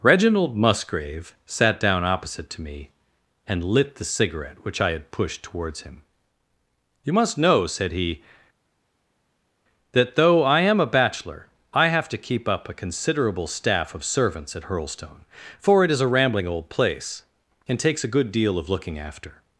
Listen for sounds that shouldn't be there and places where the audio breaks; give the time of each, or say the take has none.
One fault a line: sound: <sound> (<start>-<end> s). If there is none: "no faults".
no faults